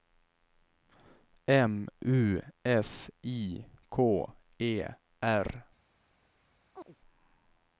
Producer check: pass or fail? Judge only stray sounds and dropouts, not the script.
fail